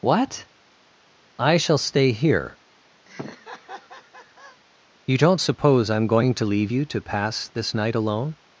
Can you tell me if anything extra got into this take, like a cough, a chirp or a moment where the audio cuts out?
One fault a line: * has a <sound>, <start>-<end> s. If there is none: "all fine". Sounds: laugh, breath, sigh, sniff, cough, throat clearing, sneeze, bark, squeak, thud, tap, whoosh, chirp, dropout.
* has a laugh, 3.1-4.6 s